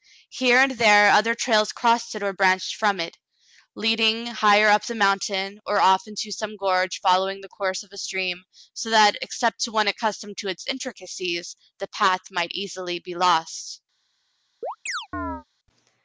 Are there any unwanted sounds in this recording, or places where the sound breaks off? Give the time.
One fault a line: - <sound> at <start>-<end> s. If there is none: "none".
- chirp at 14.6-15.4 s